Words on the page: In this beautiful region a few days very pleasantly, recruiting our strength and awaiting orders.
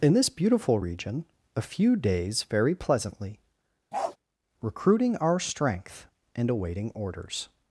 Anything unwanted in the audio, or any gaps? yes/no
yes